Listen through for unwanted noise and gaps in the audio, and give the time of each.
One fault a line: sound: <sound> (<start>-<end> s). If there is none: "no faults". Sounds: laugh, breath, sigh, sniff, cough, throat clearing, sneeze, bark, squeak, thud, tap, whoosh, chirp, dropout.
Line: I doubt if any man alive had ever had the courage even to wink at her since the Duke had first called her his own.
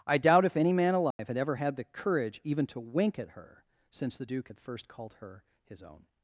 sound: dropout (1.1-1.2 s)